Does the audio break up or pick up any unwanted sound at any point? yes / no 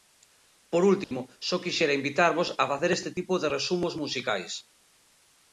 yes